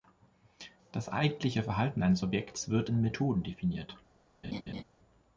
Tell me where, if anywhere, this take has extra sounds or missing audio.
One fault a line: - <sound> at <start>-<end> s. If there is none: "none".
- laugh at 4.4-4.8 s